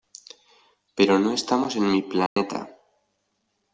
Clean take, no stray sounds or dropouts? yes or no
no